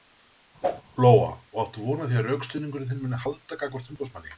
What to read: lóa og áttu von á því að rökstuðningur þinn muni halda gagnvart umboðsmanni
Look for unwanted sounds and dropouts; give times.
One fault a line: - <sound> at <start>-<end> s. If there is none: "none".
- whoosh at 0.6-0.8 s